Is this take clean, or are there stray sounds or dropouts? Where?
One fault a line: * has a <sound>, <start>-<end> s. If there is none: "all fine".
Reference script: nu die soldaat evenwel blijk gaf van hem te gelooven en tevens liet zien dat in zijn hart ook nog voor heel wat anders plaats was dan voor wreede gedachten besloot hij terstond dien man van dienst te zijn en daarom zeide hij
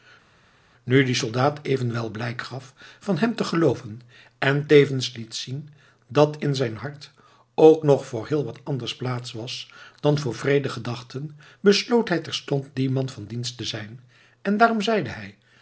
all fine